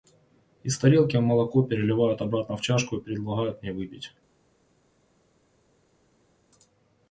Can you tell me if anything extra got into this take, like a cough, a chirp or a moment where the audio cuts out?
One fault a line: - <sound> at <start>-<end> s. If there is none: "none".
none